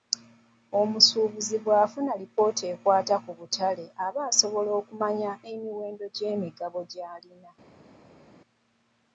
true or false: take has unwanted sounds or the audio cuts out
false